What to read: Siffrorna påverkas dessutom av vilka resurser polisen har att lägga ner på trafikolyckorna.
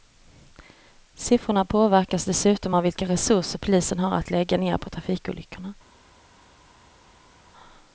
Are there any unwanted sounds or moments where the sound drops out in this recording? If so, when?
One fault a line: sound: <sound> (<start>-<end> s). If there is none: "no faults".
no faults